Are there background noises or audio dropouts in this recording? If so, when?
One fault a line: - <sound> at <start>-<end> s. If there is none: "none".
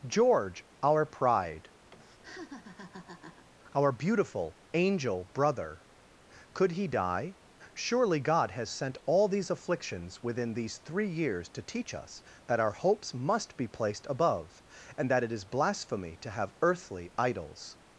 - laugh at 1.9-3.5 s